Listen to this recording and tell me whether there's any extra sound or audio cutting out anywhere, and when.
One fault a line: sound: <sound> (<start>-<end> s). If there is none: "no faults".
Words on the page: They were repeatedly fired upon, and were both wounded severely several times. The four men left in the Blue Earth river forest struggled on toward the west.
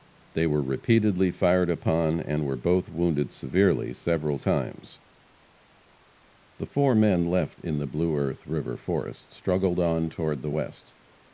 no faults